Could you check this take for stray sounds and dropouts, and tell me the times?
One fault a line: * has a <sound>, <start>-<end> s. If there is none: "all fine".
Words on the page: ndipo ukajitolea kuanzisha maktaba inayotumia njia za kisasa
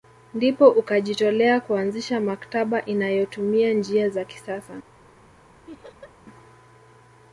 * has a laugh, 5.7-6.1 s